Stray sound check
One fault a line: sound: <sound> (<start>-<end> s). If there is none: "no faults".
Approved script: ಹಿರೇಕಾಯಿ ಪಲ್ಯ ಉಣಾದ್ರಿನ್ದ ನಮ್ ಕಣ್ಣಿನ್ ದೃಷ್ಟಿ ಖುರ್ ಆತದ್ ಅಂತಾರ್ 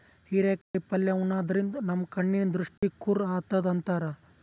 sound: dropout (0.6-0.7 s)
sound: dropout (2.8-2.8 s)